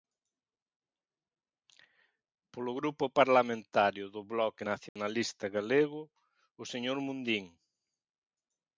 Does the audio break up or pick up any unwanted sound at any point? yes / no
yes